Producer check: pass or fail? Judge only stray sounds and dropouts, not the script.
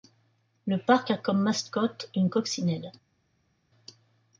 pass